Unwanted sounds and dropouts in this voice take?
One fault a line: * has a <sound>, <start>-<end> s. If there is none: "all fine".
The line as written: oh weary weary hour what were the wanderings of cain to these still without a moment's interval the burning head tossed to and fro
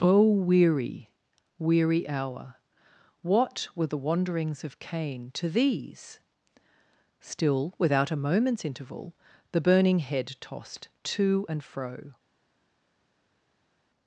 all fine